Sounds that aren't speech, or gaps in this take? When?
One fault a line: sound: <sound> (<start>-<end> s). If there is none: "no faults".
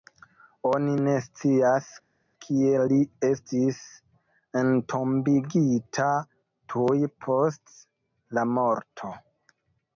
no faults